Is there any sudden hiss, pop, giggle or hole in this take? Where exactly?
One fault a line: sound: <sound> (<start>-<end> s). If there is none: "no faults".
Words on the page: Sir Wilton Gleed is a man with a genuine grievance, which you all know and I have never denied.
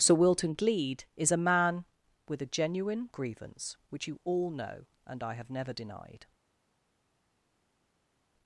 no faults